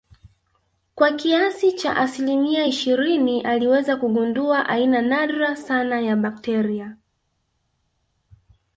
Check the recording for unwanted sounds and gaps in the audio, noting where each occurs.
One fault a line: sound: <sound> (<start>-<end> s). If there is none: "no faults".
no faults